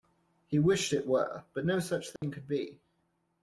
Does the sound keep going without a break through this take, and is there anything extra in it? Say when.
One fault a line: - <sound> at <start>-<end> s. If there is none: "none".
- dropout at 2.2-2.2 s